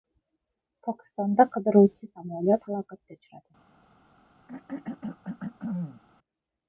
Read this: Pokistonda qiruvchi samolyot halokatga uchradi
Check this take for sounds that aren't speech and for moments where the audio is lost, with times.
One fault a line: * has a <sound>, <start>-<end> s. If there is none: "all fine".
* has a throat clearing, 4.5-6.0 s